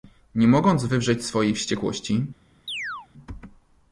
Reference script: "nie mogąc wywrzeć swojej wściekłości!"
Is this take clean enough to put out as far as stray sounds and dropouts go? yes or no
no